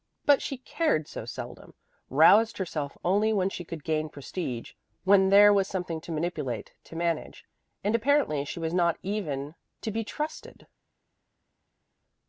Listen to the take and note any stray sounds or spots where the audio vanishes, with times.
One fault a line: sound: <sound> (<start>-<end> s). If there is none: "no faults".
no faults